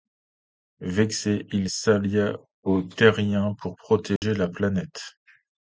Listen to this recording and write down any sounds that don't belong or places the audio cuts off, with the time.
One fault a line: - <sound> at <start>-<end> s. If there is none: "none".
- dropout at 4.2-4.2 s